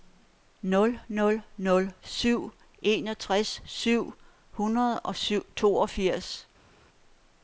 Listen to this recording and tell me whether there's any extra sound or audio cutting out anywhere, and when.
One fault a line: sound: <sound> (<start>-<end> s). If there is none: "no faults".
no faults